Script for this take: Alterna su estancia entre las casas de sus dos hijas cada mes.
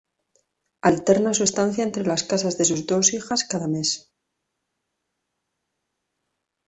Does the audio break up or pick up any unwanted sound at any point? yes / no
no